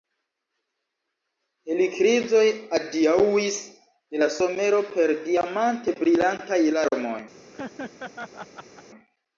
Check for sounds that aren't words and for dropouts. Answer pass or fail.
fail